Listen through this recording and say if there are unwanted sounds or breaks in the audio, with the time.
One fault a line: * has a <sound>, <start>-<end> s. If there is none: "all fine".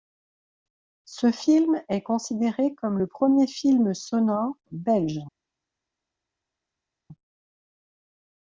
all fine